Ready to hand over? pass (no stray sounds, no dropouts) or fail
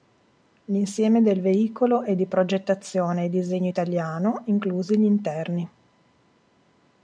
pass